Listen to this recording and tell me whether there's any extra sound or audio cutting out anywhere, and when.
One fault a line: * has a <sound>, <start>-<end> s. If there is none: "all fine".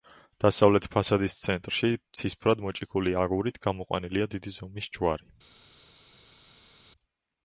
all fine